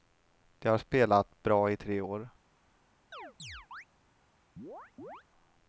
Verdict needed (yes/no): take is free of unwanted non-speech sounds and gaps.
no